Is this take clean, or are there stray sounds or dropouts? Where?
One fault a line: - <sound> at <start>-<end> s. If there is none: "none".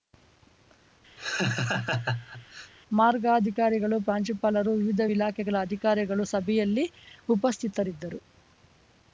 - laugh at 1.2-2.7 s